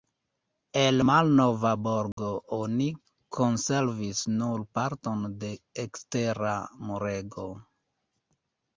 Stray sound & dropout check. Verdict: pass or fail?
fail